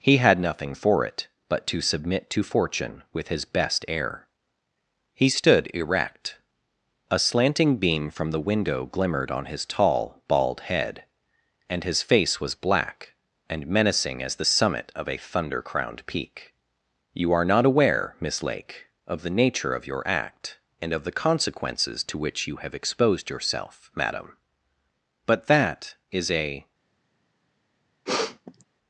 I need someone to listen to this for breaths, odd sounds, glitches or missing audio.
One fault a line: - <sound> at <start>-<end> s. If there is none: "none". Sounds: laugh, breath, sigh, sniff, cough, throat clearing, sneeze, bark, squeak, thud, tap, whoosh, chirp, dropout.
- sniff at 28.1-28.6 s